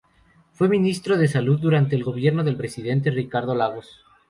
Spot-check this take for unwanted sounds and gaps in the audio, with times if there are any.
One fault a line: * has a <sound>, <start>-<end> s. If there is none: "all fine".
all fine